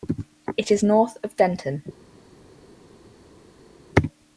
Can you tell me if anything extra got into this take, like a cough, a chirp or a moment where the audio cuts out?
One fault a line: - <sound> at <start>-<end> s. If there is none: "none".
none